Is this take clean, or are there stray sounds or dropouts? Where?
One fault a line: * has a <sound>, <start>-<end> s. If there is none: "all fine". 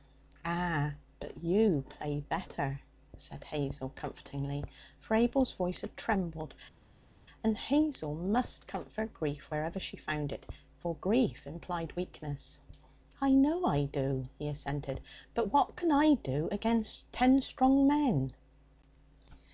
all fine